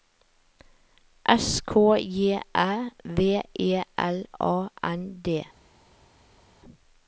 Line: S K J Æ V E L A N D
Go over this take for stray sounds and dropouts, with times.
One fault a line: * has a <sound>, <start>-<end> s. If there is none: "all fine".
all fine